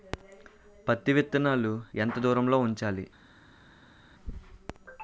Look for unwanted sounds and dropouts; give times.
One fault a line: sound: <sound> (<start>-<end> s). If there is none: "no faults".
no faults